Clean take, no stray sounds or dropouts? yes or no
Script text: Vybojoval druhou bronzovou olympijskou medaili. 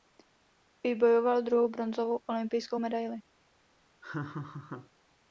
no